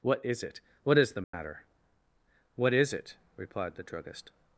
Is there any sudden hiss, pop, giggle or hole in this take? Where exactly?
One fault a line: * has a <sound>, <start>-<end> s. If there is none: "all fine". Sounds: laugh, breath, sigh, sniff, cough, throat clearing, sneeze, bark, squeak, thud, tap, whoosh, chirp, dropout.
* has a dropout, 1.2-1.3 s